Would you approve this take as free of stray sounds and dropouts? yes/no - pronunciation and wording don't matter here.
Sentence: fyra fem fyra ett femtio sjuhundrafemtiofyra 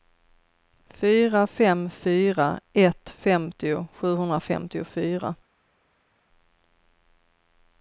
yes